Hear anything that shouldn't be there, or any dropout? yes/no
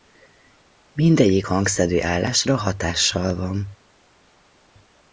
no